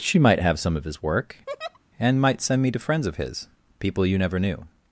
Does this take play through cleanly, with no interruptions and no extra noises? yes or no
no